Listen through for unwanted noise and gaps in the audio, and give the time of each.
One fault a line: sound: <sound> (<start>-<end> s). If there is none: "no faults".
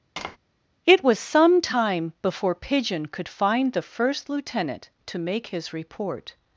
sound: tap (0.2-0.4 s)